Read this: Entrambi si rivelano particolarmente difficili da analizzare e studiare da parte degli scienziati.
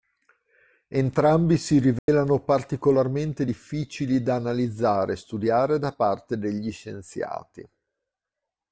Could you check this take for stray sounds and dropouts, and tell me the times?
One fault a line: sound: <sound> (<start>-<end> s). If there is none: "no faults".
sound: dropout (2.0-2.1 s)